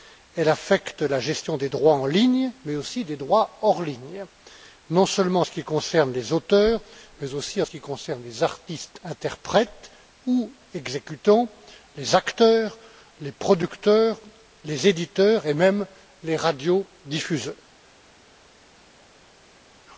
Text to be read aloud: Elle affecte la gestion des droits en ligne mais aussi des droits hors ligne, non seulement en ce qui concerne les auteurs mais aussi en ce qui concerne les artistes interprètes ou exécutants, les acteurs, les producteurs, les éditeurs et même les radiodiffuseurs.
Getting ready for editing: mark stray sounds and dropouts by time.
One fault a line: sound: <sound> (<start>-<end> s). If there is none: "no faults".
no faults